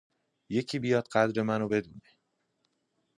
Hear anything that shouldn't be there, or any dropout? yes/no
no